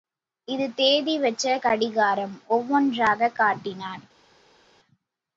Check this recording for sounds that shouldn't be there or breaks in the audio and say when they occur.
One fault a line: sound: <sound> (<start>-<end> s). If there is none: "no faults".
no faults